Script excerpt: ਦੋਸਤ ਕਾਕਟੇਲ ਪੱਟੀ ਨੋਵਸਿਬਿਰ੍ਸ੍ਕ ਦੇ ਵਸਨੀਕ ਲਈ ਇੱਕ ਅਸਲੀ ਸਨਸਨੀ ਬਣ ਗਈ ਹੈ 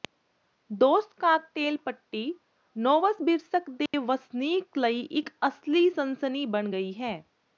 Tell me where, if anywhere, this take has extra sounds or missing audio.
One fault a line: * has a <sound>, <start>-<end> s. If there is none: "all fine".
* has a dropout, 3.9-3.9 s